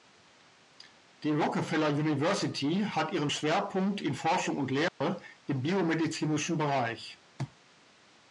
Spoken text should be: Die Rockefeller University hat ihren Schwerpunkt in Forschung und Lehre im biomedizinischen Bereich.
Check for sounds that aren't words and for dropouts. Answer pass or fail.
fail